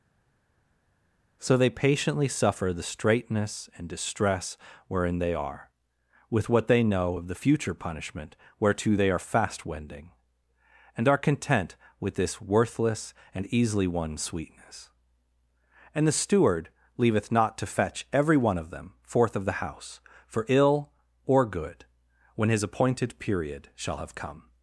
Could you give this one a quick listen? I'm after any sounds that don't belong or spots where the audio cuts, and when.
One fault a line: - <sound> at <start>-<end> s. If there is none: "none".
none